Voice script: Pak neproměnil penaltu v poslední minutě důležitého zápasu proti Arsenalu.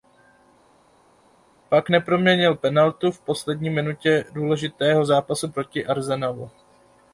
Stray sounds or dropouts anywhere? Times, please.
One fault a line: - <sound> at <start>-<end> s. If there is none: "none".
none